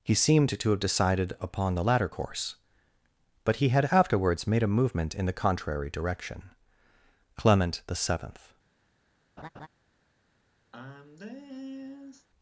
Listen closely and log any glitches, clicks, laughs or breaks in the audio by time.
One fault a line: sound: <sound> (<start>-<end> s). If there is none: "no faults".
sound: laugh (9.4-9.7 s)
sound: sigh (10.7-12.3 s)